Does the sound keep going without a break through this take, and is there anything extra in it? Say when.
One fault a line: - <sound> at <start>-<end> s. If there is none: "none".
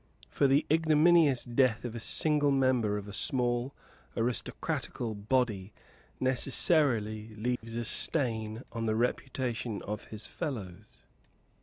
- dropout at 7.6-7.6 s